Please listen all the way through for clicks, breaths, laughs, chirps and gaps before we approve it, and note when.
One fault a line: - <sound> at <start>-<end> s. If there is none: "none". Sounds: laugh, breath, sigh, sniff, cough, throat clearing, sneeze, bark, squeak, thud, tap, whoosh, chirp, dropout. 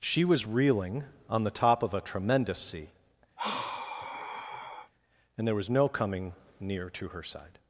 - sigh at 3.4-4.9 s